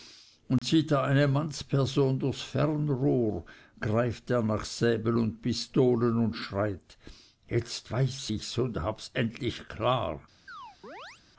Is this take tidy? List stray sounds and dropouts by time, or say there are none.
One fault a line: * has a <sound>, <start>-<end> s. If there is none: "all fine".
* has a dropout, 0.6-0.6 s
* has a chirp, 10.5-11.2 s